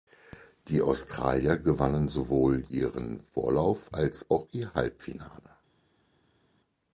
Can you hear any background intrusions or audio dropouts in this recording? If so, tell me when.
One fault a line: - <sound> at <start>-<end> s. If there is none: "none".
none